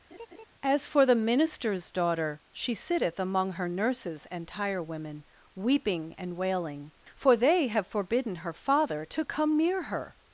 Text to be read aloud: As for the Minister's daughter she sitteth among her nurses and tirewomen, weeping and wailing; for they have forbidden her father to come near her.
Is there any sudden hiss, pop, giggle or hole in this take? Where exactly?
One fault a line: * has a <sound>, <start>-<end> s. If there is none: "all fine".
* has a laugh, 0.1-0.4 s